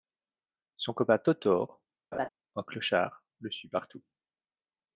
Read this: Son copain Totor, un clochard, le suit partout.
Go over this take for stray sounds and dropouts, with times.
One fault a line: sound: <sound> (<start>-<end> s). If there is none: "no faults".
sound: laugh (2.1-2.3 s)